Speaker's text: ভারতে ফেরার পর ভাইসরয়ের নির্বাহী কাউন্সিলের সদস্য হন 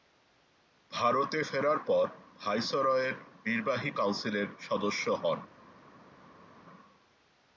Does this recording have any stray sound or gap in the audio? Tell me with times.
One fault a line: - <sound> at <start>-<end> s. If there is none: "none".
none